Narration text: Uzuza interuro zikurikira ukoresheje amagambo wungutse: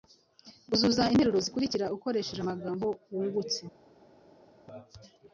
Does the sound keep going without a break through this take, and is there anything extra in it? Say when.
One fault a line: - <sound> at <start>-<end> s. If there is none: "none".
none